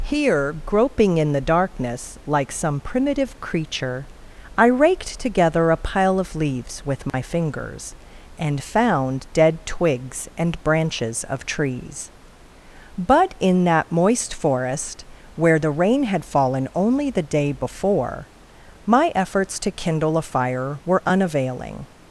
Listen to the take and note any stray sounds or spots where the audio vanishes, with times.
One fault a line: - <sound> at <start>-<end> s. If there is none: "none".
- dropout at 7.1-7.1 s